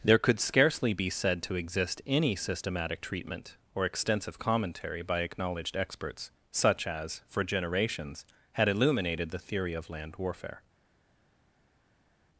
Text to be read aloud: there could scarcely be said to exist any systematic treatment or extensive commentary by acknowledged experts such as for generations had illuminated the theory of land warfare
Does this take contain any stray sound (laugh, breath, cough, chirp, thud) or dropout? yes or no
no